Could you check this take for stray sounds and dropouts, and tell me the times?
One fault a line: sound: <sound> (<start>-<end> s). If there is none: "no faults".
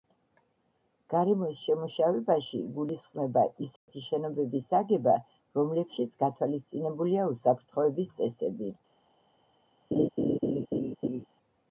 sound: dropout (3.8-3.9 s)
sound: laugh (9.9-11.2 s)